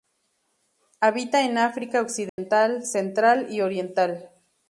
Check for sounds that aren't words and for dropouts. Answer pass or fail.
fail